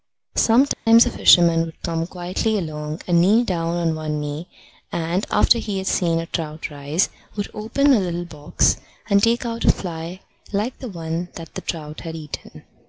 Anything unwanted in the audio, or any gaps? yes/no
yes